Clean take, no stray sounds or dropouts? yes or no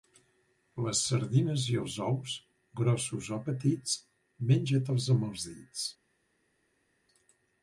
yes